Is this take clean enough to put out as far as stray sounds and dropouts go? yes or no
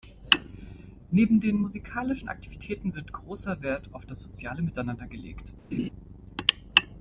no